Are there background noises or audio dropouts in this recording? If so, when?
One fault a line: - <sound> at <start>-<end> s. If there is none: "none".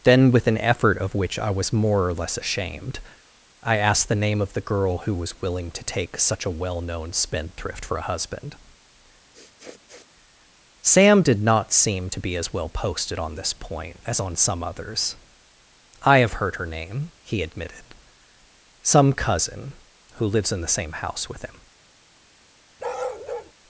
- sniff at 9.3-10.2 s
- bark at 22.8-23.5 s